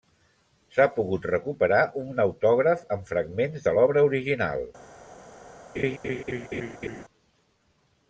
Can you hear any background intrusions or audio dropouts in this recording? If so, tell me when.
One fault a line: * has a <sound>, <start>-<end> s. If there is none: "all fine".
* has a laugh, 5.8-7.0 s